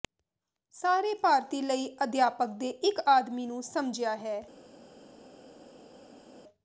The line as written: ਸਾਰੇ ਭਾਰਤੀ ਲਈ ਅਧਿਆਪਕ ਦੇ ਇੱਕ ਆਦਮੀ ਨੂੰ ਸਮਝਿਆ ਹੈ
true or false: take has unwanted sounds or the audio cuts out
false